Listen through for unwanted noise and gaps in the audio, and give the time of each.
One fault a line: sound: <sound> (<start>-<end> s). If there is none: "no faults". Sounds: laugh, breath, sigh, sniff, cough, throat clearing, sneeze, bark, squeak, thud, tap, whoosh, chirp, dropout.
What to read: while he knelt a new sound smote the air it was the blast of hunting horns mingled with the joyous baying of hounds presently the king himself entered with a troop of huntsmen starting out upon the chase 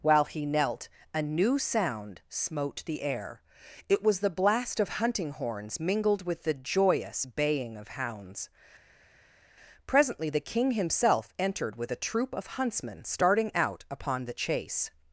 no faults